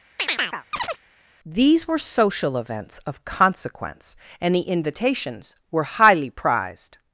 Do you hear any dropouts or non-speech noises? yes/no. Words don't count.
yes